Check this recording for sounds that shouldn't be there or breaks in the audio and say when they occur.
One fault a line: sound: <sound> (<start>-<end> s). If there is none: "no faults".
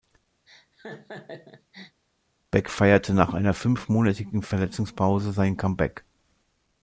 sound: laugh (0.5-2.0 s)